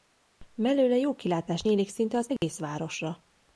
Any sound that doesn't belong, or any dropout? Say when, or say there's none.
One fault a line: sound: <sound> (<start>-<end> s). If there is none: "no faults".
sound: dropout (2.4-2.4 s)